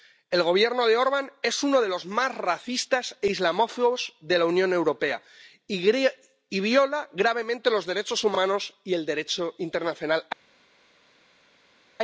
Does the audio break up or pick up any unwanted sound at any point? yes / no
no